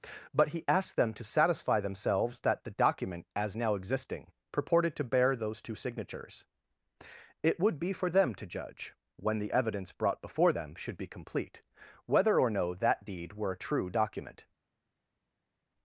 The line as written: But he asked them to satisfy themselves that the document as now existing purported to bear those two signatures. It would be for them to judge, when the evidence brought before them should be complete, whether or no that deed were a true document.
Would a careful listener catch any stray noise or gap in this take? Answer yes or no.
no